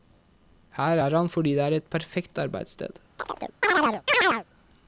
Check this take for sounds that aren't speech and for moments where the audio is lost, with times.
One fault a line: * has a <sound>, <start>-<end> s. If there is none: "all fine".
* has a chirp, 3.2-4.4 s